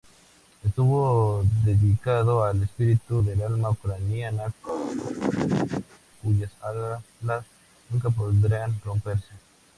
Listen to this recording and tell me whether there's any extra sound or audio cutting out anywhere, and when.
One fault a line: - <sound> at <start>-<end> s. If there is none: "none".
- laugh at 4.6-6.0 s